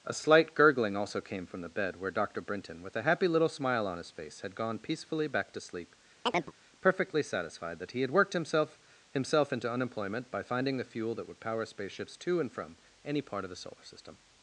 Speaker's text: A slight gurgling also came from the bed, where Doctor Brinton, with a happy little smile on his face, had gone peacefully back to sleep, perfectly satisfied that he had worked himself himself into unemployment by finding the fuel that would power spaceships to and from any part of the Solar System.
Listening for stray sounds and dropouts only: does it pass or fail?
fail